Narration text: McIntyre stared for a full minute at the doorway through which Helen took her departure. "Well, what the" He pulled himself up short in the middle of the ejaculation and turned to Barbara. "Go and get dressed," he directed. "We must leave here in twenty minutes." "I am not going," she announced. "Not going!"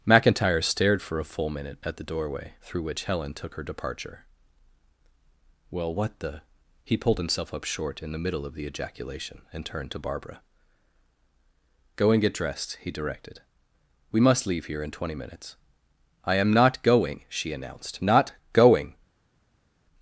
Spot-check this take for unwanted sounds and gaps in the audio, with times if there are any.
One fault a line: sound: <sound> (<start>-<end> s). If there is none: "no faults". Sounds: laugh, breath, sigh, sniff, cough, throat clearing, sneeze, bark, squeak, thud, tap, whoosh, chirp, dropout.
no faults